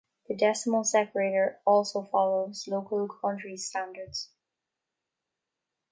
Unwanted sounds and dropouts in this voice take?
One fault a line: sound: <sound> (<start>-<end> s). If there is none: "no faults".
no faults